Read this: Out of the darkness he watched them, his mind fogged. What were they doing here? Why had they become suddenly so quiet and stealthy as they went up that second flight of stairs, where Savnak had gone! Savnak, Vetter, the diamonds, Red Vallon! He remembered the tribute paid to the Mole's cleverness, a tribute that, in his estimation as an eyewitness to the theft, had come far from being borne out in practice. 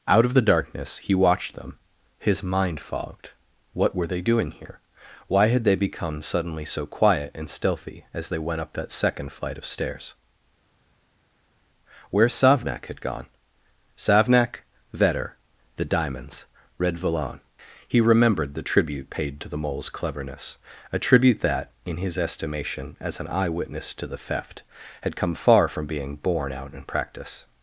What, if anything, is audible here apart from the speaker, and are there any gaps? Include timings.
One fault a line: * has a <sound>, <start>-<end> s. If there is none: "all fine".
all fine